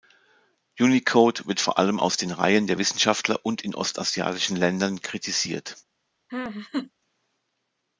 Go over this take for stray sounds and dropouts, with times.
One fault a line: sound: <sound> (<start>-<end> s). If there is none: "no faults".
sound: laugh (6.3-6.9 s)